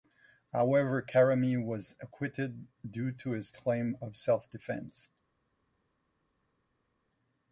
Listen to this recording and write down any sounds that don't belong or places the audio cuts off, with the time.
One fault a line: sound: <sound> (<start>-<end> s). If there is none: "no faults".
no faults